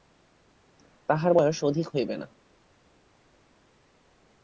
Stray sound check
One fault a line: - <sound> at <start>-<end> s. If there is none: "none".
none